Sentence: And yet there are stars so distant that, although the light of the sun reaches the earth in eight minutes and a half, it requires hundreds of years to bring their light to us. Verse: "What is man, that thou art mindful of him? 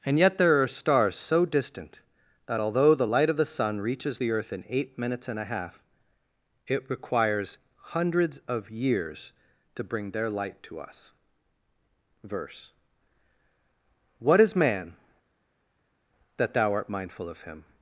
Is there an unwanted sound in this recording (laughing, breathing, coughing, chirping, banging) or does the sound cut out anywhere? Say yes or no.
no